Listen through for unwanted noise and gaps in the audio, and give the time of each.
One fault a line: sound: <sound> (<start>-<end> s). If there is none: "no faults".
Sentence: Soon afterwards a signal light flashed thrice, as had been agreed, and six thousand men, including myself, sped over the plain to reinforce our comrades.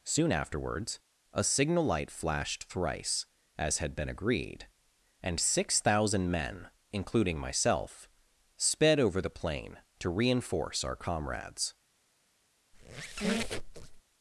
sound: squeak (12.7-14.0 s)